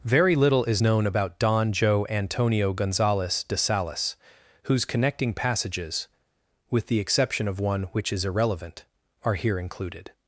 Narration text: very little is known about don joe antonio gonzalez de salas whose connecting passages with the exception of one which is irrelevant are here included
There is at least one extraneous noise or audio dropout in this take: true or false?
false